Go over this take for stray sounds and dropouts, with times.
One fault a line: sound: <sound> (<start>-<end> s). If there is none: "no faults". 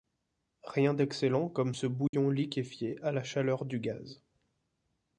sound: dropout (2.1-2.1 s)